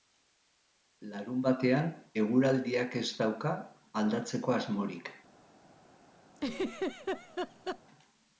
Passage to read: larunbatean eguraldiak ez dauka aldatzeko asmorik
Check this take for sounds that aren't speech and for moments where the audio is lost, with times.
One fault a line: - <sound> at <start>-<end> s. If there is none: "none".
- laugh at 6.4-7.8 s